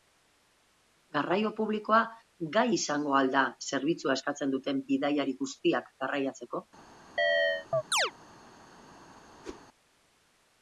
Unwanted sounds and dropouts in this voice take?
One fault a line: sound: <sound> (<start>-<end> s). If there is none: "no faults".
sound: chirp (7.2-8.1 s)
sound: whoosh (9.4-9.6 s)